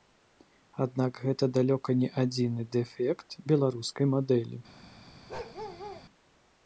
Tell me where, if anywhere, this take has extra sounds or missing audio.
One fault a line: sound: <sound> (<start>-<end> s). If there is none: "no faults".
sound: bark (5.3-6.1 s)